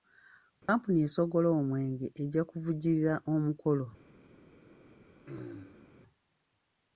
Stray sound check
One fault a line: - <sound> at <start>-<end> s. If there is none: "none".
- dropout at 0.6-0.7 s
- throat clearing at 5.3-5.9 s